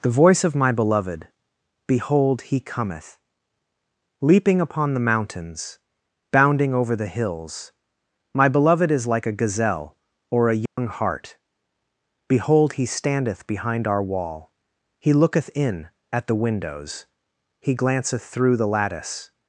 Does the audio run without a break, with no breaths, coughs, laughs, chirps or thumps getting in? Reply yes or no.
no